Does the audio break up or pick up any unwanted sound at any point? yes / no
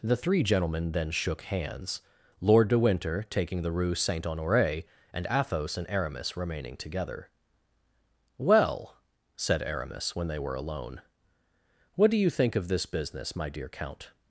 no